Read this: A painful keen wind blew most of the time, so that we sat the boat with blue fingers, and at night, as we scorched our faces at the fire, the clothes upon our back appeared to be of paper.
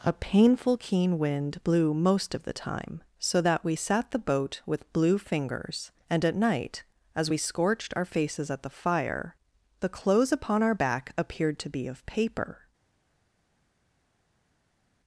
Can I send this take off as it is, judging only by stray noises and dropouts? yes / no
yes